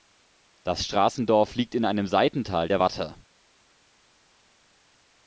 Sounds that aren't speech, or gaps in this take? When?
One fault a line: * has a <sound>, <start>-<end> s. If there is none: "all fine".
all fine